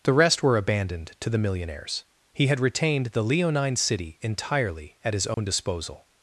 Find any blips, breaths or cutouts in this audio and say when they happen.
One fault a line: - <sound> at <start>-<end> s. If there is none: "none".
- dropout at 5.3-5.4 s